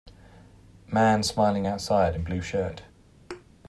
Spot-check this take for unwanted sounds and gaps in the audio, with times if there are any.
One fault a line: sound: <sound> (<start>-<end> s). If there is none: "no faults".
sound: thud (3.3-3.4 s)